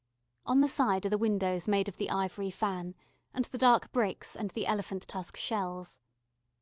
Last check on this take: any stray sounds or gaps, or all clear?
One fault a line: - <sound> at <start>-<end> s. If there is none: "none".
none